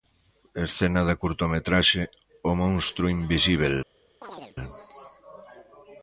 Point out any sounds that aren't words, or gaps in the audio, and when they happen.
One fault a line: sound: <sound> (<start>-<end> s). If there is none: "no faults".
sound: chirp (4.2-4.6 s)